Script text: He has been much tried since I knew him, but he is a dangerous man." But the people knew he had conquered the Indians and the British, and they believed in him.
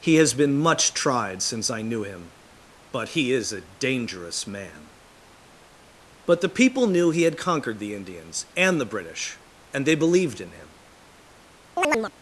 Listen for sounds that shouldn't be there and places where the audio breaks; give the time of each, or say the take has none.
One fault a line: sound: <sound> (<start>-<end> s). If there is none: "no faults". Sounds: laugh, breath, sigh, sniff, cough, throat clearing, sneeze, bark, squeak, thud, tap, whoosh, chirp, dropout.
sound: chirp (11.8-12.1 s)